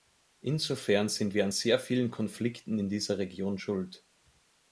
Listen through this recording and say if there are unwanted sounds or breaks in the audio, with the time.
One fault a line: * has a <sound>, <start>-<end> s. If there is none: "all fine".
all fine